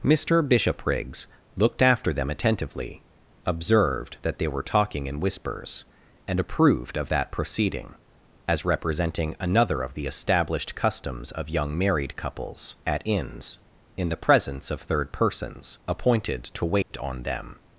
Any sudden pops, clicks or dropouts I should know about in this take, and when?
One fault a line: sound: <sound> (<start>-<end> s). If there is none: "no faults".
sound: dropout (16.8-16.9 s)